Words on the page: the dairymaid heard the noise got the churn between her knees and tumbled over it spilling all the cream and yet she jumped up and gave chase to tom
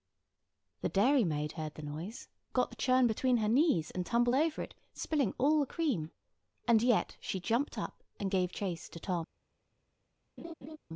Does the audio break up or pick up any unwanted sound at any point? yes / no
yes